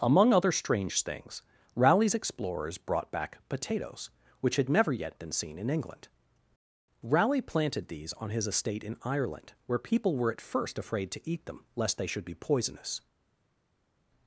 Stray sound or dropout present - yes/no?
no